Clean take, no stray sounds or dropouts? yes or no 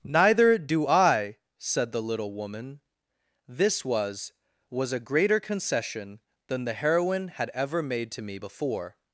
yes